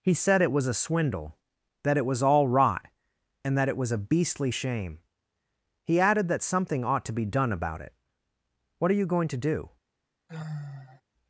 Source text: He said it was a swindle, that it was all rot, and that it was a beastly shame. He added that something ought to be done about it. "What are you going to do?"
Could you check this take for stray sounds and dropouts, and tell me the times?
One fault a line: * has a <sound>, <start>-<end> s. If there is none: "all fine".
* has a sigh, 10.3-11.0 s